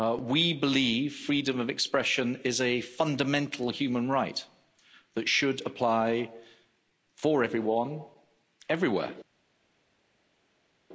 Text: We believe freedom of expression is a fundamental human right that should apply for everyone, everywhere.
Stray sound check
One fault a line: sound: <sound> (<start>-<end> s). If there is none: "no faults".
no faults